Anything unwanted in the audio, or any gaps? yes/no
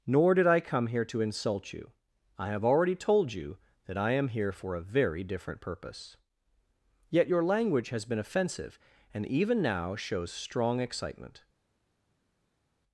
no